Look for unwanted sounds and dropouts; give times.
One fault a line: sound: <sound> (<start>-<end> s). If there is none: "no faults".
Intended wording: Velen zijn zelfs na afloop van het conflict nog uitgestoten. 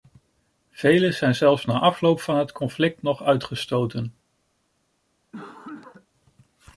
sound: cough (5.3-6.1 s)